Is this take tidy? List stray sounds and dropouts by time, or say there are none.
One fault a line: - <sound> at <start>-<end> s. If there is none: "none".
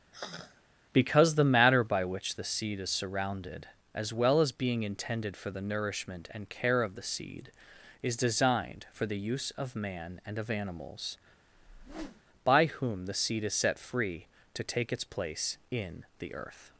- sigh at 0.1-0.6 s
- whoosh at 11.5-12.2 s